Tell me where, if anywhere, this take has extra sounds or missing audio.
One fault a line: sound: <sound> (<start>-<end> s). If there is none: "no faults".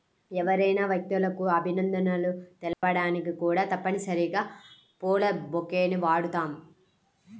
sound: dropout (2.7-2.8 s)